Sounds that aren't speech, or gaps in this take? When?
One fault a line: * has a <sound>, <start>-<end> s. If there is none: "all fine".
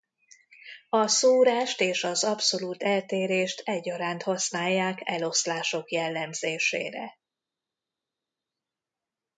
all fine